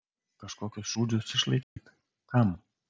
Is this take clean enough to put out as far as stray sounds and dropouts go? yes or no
no